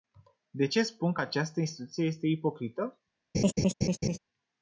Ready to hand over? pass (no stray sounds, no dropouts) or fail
fail